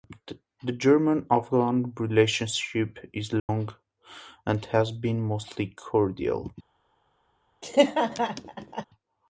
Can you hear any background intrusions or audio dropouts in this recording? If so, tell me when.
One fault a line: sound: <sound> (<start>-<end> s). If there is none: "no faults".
sound: dropout (3.4-3.5 s)
sound: laugh (7.6-8.8 s)